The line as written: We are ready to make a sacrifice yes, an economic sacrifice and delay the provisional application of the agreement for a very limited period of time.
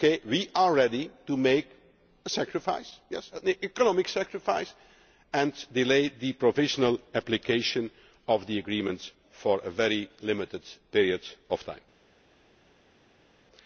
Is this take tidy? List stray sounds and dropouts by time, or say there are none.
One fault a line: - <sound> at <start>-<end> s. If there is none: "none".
none